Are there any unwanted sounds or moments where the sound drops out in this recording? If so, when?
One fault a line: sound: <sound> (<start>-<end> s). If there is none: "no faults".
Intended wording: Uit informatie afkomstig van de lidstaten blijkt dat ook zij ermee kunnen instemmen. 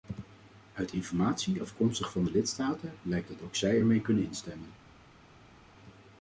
no faults